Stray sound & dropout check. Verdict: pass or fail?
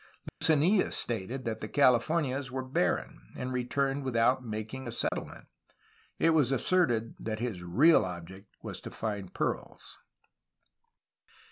fail